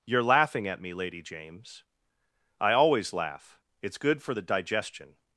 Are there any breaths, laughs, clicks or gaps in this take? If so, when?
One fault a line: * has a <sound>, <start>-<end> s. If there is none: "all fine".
all fine